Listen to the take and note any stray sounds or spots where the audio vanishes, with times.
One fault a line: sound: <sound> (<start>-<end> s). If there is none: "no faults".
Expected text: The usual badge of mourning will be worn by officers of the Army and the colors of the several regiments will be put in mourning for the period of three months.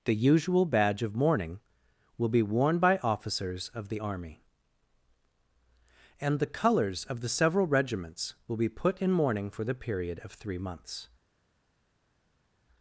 no faults